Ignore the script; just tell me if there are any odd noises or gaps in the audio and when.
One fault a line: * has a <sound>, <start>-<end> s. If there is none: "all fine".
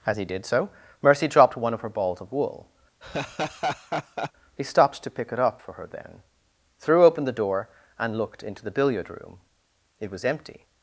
* has a laugh, 3.0-4.3 s